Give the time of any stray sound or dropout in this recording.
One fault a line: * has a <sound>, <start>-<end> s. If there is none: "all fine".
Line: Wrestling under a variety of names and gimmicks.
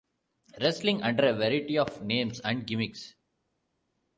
all fine